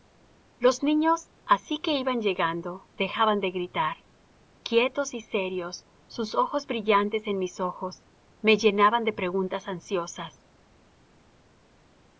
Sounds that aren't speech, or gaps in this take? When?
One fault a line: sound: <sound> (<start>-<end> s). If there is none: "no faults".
no faults